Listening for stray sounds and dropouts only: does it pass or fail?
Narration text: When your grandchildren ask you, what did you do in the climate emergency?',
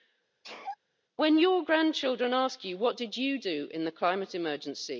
fail